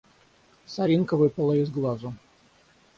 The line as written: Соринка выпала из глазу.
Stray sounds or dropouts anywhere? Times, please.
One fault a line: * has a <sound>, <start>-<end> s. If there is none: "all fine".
all fine